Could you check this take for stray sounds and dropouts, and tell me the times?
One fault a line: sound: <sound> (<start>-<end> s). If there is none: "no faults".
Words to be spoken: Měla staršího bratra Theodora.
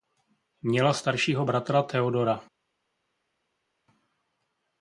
no faults